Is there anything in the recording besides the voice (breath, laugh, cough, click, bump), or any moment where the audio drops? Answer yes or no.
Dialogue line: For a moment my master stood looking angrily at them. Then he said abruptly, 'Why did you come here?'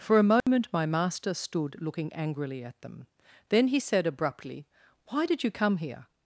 yes